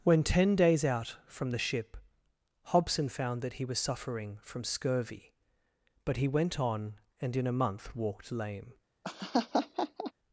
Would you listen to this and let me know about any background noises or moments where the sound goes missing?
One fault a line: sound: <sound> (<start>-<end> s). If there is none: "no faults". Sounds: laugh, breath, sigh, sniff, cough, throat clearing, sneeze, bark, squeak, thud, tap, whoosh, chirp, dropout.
sound: laugh (9.0-10.1 s)